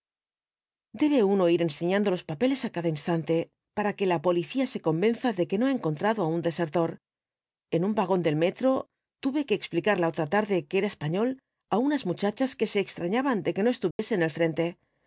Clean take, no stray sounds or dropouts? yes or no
no